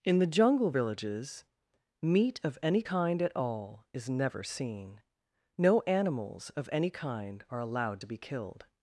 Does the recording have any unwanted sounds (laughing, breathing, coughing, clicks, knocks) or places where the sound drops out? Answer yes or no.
no